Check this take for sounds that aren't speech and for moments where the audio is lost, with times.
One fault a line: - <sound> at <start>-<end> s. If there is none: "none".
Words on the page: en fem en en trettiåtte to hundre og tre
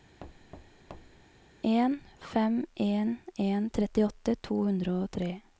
- thud at 0.2-1.3 s